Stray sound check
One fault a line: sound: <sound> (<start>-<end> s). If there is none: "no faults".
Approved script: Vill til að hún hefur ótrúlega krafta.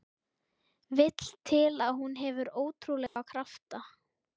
sound: dropout (3.1-3.2 s)